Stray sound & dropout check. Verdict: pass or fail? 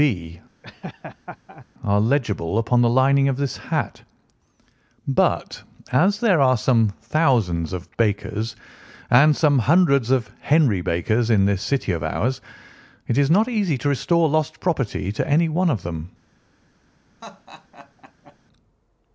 fail